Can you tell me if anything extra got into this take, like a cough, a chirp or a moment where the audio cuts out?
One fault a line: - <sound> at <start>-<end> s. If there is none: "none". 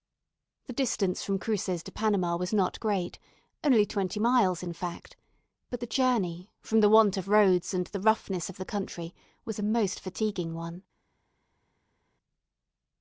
none